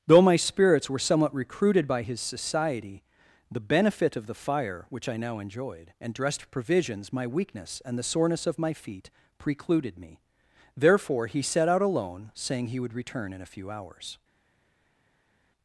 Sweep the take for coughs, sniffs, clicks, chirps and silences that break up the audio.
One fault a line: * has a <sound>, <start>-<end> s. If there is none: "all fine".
all fine